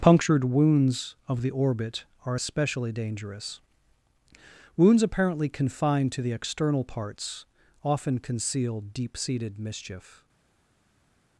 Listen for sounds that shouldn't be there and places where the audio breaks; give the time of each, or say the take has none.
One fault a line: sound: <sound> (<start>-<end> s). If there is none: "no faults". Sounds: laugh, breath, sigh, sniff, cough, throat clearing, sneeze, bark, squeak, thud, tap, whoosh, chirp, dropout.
no faults